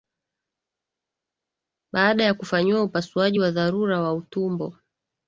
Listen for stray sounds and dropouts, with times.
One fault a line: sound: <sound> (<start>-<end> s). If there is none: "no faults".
no faults